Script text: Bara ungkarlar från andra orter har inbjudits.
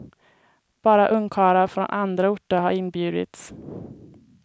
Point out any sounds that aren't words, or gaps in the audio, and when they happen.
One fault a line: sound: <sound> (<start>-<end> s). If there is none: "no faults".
no faults